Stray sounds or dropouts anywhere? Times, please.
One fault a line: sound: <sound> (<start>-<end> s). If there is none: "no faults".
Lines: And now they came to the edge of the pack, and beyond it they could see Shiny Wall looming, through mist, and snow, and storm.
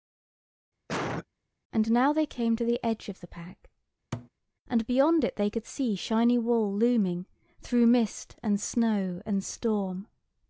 sound: cough (0.9-1.3 s)
sound: thud (4.1-4.3 s)